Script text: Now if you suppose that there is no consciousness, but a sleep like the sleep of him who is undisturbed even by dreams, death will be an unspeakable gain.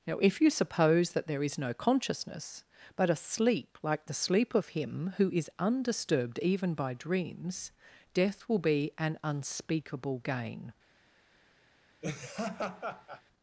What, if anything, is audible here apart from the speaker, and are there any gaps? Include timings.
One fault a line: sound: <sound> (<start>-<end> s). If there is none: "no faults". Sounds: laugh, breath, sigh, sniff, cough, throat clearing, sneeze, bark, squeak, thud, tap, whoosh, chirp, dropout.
sound: laugh (12.0-13.2 s)